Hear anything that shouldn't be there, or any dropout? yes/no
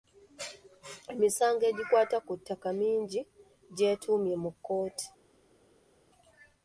no